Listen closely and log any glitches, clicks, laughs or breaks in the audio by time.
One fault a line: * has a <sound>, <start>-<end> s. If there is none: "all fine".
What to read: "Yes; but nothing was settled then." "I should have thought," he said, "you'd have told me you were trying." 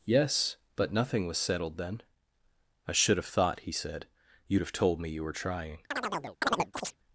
* has a chirp, 5.9-7.0 s